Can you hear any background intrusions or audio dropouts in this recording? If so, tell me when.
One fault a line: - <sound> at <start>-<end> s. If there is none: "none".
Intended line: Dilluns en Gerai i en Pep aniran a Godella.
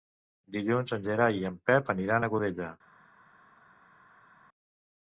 none